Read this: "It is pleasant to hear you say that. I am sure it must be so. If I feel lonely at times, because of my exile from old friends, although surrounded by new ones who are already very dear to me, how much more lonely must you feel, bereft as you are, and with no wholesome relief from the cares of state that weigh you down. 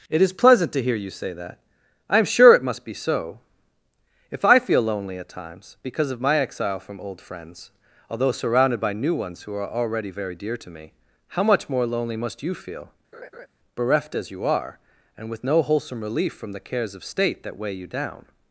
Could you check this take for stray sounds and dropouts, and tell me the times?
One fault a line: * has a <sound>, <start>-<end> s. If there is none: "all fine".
* has a laugh, 13.1-13.5 s